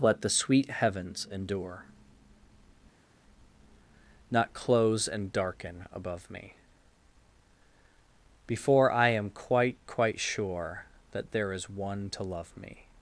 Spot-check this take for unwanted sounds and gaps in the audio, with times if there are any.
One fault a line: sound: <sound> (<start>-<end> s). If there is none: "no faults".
no faults